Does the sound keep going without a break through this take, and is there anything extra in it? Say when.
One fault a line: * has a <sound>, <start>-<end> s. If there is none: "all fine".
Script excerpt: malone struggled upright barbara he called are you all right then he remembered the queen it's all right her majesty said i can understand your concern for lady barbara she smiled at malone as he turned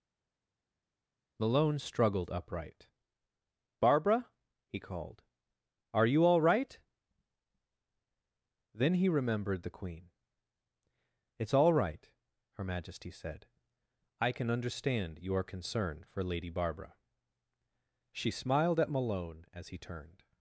all fine